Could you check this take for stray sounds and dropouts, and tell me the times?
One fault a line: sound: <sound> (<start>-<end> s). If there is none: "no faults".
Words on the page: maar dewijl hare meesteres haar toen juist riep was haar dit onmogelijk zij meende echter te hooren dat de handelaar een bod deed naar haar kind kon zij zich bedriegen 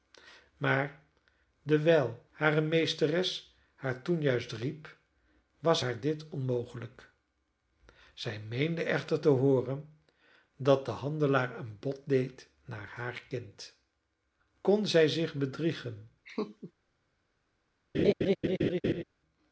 sound: laugh (16.2-16.7 s)
sound: laugh (17.9-19.0 s)